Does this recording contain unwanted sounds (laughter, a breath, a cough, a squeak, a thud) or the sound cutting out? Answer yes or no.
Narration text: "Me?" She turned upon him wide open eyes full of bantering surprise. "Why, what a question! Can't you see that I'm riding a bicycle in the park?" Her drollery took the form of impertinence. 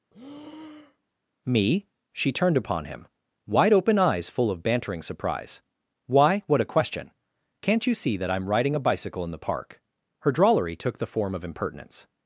yes